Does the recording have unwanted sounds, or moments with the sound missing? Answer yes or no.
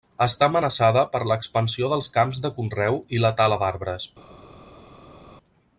no